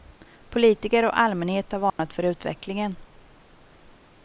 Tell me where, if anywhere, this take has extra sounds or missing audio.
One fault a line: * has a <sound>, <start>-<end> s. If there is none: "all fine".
* has a dropout, 1.9-2.0 s